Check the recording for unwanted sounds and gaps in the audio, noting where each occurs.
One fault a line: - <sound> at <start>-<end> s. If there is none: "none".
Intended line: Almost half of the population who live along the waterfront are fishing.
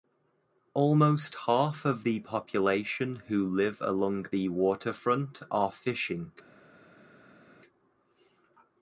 none